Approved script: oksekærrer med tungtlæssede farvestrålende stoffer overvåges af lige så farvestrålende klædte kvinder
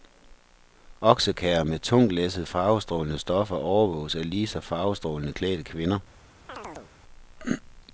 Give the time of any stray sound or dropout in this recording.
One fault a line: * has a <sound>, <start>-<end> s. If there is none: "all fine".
* has a chirp, 6.5-6.9 s